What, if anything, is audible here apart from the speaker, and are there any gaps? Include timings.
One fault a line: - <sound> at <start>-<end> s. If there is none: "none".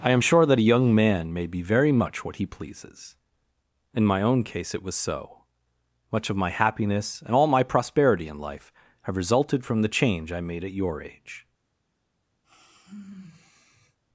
- sigh at 12.4-14.0 s